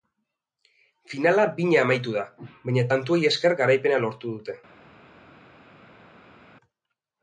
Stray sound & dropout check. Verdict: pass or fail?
pass